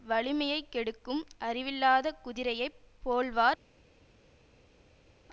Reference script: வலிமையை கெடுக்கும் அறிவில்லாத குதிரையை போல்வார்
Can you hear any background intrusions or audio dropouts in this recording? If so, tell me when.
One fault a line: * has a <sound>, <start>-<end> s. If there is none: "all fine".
all fine